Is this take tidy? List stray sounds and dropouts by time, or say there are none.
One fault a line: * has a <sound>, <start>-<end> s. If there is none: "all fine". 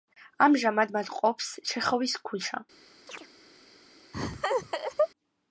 * has a chirp, 3.1-3.3 s
* has a laugh, 4.1-5.1 s